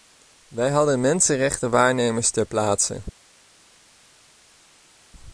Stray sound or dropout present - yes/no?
no